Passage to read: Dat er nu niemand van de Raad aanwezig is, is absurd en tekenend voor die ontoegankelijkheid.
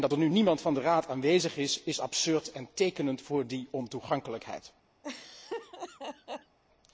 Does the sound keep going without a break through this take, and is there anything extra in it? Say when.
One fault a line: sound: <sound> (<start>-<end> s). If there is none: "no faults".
sound: laugh (5.0-6.6 s)